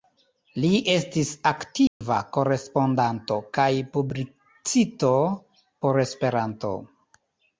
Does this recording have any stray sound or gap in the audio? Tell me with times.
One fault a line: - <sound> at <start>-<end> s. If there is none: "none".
- dropout at 1.9-2.0 s